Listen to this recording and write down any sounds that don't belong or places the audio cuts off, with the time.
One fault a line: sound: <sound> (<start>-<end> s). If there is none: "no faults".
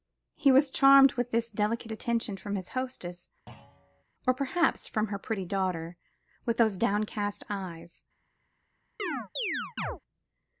sound: thud (3.5-4.0 s)
sound: chirp (9.0-10.0 s)